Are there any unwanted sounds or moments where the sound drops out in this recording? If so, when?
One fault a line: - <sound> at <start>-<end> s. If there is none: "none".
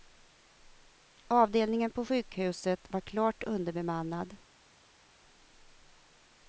none